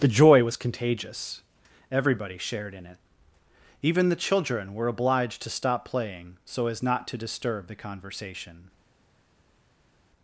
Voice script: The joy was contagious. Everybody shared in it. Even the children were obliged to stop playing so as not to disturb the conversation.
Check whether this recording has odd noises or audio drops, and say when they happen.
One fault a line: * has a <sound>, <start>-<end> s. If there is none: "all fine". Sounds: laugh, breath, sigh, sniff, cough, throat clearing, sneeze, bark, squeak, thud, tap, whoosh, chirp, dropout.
all fine